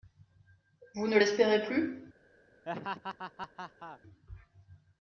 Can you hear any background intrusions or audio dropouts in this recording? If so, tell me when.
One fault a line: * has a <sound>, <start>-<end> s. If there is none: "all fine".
* has a laugh, 2.7-4.0 s